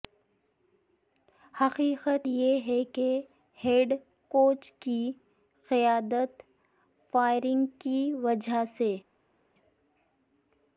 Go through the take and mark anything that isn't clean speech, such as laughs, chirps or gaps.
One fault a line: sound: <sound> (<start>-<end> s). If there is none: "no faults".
no faults